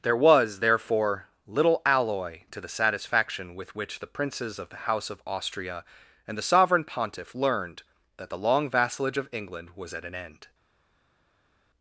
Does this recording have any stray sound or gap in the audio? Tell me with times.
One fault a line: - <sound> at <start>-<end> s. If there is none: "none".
none